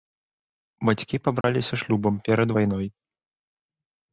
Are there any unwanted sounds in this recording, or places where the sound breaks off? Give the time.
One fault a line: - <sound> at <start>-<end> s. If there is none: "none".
- dropout at 1.4-1.4 s